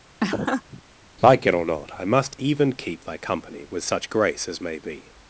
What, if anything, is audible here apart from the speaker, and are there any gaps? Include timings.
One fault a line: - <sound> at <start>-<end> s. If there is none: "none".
- laugh at 0.2-0.8 s